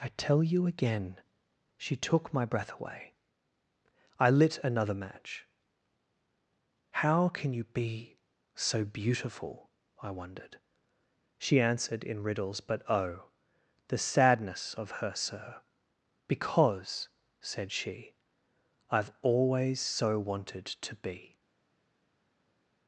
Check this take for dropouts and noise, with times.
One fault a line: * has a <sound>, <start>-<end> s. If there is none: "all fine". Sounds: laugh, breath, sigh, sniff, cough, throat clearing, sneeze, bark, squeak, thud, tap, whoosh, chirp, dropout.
all fine